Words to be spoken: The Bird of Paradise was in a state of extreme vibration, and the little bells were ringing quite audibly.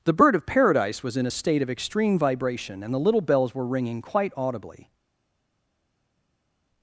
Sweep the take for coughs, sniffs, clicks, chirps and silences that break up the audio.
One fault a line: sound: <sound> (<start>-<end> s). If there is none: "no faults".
no faults